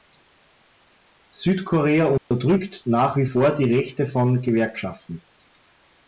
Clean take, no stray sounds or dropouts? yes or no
no